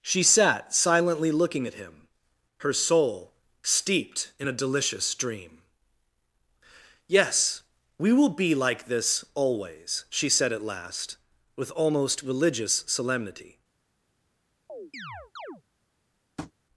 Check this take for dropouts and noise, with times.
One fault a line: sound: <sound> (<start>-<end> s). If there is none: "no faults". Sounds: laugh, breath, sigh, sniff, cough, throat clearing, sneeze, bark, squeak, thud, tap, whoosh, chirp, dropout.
sound: chirp (14.7-15.6 s)
sound: tap (16.4-16.5 s)